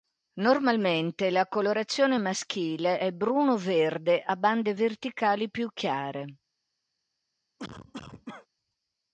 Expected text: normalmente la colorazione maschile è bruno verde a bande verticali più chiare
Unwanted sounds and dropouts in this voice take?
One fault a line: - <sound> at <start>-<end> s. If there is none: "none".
- cough at 7.6-8.5 s